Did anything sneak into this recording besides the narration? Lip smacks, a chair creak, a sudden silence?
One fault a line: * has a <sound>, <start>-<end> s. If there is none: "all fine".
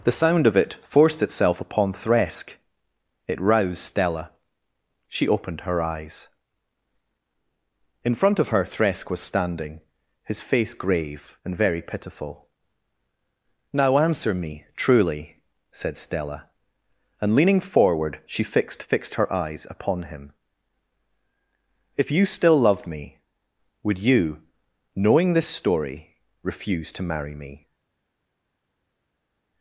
all fine